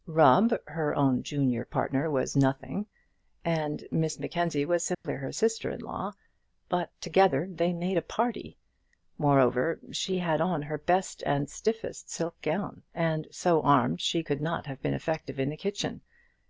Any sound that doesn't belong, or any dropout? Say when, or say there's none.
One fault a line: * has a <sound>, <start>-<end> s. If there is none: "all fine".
* has a dropout, 4.9-5.0 s